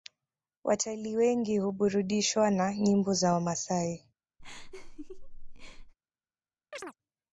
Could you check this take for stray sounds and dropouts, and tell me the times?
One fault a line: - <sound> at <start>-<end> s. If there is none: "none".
- laugh at 4.4-5.9 s
- chirp at 6.7-6.9 s